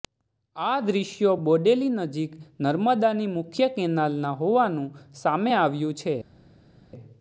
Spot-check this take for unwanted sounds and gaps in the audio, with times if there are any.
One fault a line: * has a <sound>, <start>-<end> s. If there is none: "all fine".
all fine